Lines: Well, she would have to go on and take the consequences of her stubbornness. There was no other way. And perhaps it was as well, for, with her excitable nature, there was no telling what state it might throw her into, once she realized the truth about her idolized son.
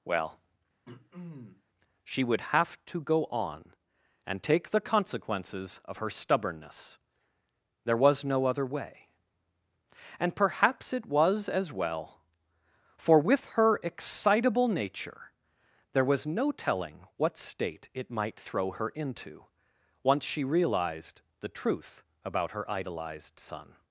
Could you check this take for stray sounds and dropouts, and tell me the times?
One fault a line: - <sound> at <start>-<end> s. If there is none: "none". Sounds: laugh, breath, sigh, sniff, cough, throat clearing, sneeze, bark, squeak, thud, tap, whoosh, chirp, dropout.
- throat clearing at 0.9-1.6 s